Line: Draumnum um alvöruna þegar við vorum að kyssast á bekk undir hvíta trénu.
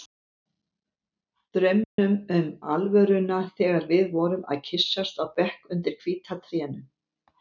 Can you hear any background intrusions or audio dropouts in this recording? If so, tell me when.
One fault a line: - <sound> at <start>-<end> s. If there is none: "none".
- dropout at 1.8-2.0 s